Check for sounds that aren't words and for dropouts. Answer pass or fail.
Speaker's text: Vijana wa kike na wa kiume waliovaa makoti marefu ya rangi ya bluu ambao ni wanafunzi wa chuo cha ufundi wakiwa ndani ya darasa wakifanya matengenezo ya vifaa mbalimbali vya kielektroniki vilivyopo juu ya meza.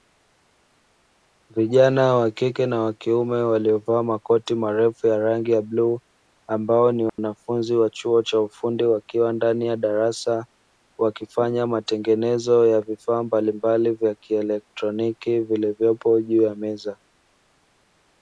fail